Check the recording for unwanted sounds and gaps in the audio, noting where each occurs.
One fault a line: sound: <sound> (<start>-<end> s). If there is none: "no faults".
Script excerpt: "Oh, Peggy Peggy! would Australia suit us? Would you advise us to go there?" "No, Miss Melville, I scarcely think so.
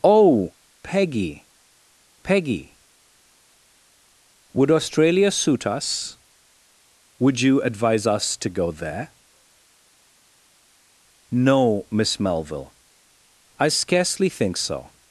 no faults